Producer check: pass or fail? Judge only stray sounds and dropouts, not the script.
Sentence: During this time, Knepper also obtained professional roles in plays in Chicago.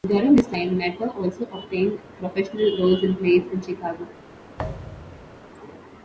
fail